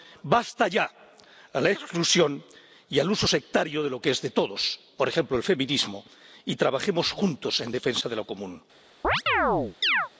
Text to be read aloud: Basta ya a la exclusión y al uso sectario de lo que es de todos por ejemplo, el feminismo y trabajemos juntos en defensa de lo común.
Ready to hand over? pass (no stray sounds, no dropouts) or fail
fail